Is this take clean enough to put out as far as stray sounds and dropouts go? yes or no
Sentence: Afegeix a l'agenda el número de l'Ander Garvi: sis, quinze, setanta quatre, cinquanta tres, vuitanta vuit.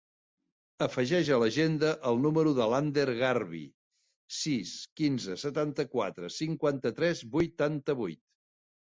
yes